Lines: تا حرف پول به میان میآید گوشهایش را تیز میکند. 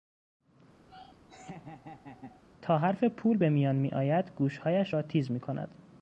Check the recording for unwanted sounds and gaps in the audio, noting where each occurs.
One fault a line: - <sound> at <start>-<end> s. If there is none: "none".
- laugh at 0.9-2.4 s